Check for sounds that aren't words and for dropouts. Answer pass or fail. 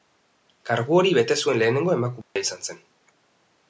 fail